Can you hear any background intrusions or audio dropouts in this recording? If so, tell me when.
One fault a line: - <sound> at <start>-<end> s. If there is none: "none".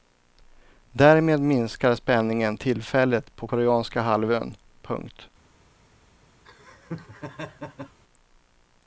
- laugh at 6.4-8.0 s